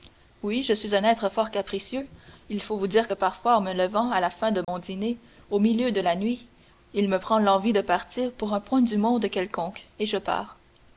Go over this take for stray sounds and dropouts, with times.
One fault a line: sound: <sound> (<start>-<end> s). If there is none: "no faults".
sound: dropout (4.6-4.7 s)